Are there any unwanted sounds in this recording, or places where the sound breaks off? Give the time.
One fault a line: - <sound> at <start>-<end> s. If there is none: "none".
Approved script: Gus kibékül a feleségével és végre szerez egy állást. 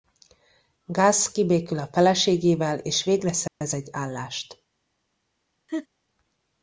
- dropout at 3.5-3.6 s
- laugh at 5.7-5.9 s